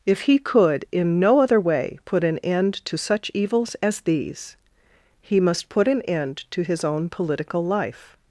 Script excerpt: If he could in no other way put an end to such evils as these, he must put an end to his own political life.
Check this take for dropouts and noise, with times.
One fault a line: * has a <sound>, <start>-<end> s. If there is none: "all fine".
all fine